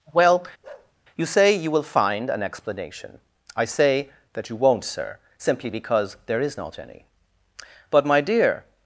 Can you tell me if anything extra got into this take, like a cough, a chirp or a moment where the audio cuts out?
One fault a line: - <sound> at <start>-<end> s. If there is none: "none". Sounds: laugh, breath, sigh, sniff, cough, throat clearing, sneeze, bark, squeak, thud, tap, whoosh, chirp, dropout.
- bark at 0.6-0.9 s